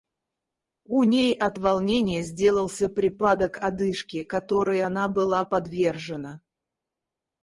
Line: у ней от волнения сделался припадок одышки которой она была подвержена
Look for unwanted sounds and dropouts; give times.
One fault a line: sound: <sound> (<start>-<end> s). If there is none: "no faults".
no faults